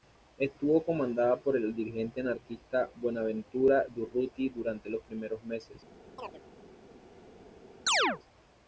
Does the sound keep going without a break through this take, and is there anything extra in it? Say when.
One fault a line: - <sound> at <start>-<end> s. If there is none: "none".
- chirp at 6.2-6.4 s
- chirp at 7.9-8.2 s